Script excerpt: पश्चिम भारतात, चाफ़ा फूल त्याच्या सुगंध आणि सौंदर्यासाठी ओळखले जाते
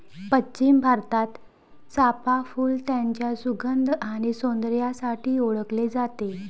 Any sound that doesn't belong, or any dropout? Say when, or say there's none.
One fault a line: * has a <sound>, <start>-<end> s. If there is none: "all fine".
all fine